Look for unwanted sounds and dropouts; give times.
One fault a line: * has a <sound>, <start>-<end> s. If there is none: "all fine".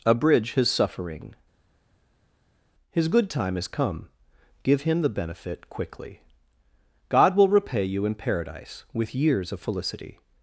all fine